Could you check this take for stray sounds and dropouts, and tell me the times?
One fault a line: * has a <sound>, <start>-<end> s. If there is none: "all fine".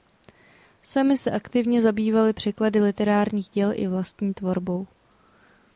all fine